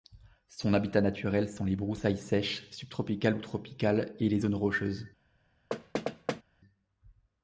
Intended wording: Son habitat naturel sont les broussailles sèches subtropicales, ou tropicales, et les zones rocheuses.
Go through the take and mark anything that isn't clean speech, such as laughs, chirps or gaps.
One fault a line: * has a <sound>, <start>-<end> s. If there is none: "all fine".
* has a thud, 5.7-6.4 s